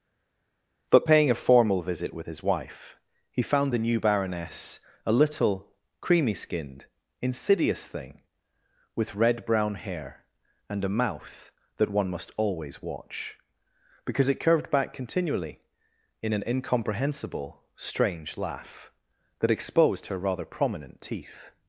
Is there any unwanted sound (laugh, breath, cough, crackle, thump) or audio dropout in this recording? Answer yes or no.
no